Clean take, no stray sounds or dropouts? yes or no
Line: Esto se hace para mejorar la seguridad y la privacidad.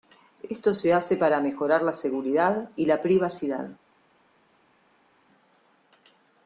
yes